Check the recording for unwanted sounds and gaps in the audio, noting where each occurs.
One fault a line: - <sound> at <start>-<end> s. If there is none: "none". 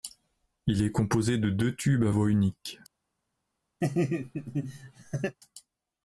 - laugh at 3.8-5.4 s